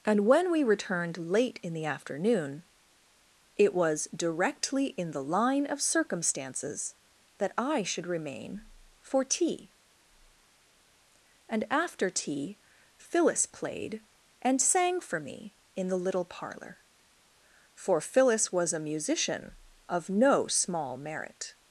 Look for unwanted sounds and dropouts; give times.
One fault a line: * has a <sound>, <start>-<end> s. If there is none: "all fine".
all fine